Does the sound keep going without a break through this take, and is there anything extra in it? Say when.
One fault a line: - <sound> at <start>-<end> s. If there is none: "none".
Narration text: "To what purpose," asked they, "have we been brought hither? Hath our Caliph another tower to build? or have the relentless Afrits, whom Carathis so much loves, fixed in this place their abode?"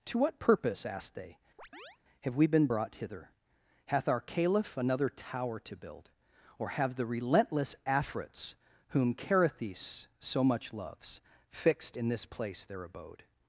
- chirp at 1.6-2.0 s